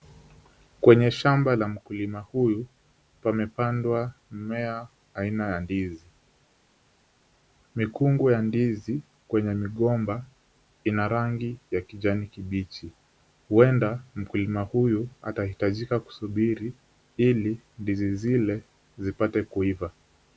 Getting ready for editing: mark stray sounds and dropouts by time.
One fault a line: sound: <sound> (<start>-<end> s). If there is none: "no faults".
no faults